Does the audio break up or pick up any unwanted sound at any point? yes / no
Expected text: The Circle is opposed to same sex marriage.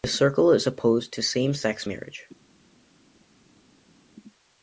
no